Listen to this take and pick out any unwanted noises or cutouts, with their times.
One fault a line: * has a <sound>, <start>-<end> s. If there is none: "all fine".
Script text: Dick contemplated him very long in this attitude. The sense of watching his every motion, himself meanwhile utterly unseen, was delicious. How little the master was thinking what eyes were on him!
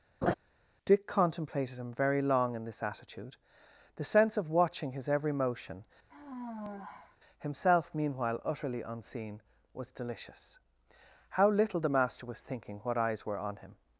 * has a laugh, 0.2-0.3 s
* has a sigh, 6.1-7.2 s